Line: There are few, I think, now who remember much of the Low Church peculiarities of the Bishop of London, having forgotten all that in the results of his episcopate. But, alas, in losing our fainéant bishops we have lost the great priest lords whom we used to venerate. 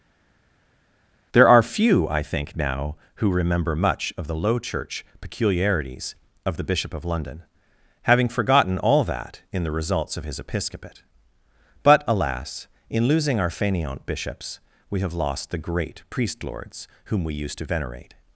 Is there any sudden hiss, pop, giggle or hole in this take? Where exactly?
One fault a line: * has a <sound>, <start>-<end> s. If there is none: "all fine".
all fine